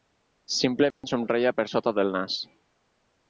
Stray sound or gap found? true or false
true